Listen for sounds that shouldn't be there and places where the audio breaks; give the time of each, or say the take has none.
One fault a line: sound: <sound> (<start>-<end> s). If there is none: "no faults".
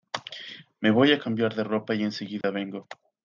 sound: dropout (2.4-2.4 s)